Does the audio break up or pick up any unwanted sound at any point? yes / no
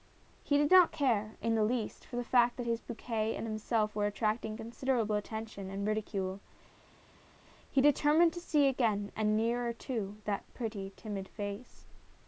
no